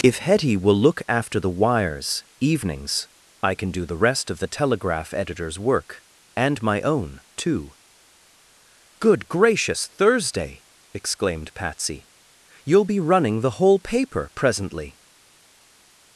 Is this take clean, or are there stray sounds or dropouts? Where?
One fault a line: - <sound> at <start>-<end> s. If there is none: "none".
none